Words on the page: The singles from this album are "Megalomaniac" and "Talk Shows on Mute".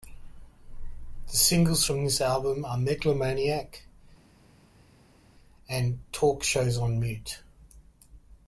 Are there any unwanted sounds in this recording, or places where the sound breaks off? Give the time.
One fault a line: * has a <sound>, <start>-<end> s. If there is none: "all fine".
all fine